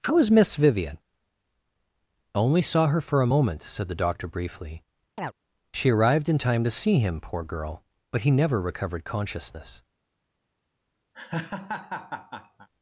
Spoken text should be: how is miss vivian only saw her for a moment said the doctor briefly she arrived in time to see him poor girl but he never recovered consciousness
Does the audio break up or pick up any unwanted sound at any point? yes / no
yes